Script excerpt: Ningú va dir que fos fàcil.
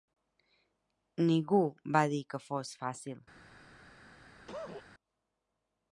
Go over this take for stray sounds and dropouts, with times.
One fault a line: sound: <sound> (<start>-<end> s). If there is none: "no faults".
sound: cough (4.5-4.8 s)